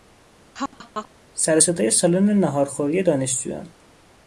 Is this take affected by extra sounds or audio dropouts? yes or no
yes